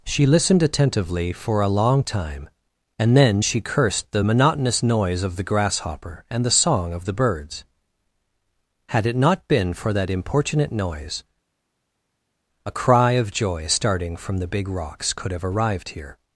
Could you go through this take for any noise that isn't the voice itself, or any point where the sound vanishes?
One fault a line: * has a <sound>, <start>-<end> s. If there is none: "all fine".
all fine